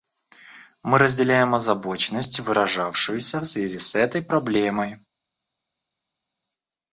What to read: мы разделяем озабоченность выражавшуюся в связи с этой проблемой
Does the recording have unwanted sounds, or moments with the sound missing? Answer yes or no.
no